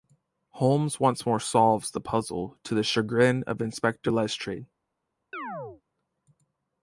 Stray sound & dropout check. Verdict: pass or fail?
fail